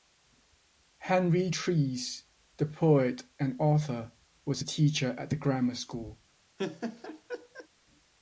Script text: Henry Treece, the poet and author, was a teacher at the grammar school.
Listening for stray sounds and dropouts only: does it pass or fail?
fail